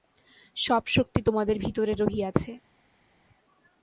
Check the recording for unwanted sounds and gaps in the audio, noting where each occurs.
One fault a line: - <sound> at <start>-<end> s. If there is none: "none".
none